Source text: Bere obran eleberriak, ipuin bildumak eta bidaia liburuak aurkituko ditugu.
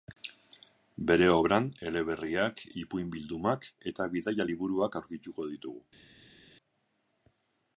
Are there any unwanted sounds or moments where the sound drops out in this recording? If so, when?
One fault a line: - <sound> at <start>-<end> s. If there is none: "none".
none